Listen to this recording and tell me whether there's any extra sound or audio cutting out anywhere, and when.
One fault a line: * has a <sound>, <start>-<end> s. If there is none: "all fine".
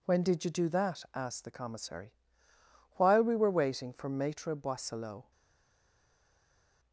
all fine